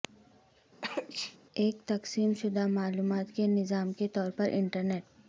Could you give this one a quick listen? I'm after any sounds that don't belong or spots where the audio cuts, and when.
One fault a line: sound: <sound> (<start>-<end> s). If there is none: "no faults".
sound: sneeze (0.8-1.4 s)